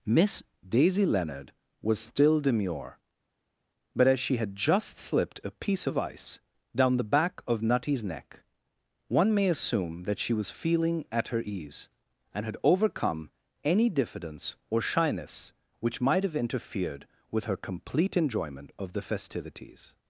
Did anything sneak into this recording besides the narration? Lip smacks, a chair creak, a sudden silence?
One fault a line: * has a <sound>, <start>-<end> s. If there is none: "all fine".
all fine